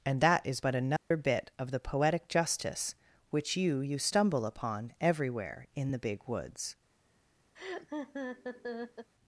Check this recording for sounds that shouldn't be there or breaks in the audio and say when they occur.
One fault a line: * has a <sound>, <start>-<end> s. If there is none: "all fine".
* has a dropout, 1.0-1.1 s
* has a laugh, 7.5-9.1 s